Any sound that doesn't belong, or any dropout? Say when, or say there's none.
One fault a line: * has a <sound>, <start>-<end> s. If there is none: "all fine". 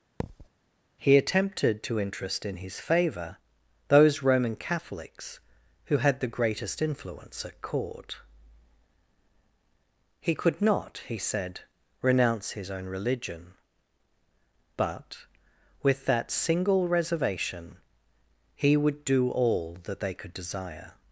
* has a thud, 0.2-0.5 s